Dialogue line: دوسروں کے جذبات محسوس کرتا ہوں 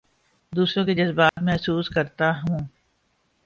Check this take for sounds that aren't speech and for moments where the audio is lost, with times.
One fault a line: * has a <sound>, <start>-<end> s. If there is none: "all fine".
* has a dropout, 1.3-1.4 s